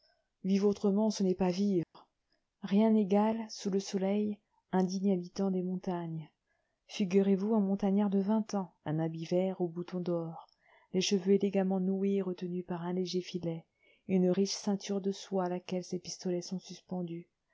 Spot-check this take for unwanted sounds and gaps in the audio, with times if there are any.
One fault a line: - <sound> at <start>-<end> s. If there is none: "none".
- dropout at 1.8-1.9 s